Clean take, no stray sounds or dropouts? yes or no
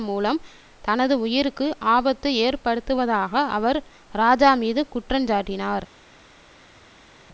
yes